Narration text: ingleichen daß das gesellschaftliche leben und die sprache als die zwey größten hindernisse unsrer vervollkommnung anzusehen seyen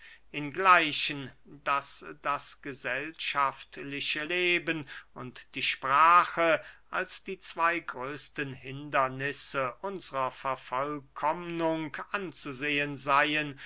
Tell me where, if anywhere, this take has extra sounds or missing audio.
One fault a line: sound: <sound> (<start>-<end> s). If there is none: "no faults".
no faults